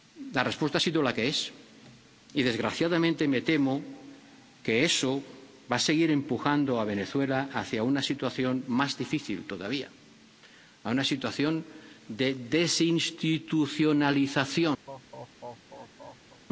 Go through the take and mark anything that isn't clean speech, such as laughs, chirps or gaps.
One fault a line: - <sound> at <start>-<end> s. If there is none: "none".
- laugh at 14.9-16.4 s